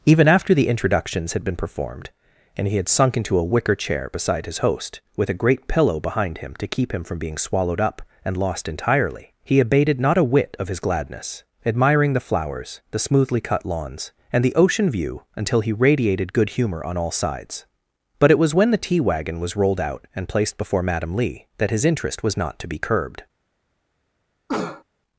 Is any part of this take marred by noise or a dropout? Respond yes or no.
yes